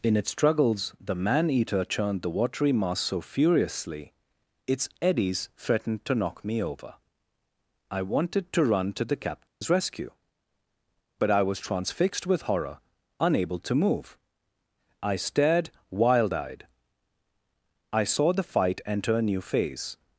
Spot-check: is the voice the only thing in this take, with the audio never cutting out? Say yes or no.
no